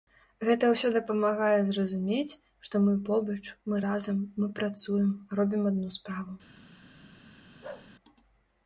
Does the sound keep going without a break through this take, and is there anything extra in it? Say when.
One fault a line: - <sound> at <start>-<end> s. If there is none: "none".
- bark at 7.6-7.9 s